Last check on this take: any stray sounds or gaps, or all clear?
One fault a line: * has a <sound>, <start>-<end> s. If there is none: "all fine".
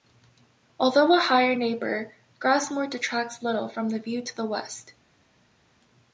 all fine